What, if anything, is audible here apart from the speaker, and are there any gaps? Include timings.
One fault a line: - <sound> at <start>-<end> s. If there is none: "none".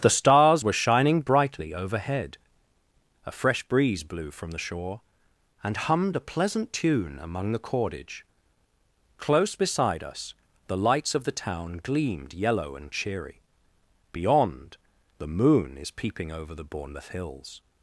none